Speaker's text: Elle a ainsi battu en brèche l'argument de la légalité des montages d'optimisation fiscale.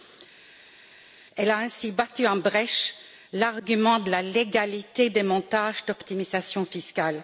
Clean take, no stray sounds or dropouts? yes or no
yes